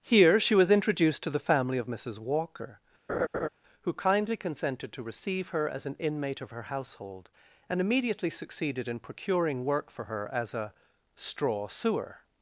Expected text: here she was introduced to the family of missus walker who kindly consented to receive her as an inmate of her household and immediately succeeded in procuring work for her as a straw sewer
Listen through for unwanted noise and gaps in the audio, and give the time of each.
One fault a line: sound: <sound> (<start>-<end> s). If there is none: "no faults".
sound: laugh (3.1-3.5 s)